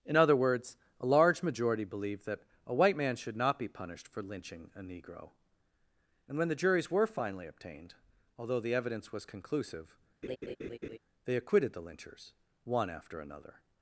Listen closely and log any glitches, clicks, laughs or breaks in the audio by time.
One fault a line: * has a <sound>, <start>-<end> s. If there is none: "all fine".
* has a laugh, 10.2-11.0 s